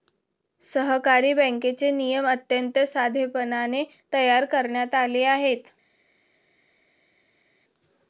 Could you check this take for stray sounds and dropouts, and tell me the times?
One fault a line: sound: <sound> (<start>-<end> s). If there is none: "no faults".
no faults